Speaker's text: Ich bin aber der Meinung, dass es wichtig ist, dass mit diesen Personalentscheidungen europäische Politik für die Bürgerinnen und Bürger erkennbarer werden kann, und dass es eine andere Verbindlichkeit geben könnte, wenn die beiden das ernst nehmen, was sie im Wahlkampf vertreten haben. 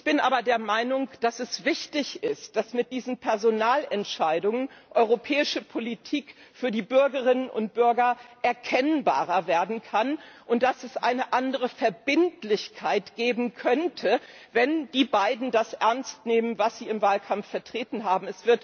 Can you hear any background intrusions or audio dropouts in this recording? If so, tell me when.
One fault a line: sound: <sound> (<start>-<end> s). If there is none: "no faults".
no faults